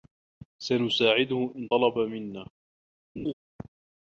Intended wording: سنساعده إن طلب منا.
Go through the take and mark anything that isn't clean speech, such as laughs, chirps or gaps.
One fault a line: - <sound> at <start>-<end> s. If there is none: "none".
- laugh at 3.2-3.3 s